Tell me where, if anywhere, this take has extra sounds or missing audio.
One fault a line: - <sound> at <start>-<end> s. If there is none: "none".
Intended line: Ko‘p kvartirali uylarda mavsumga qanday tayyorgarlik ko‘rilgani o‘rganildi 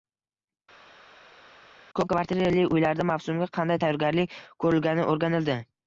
none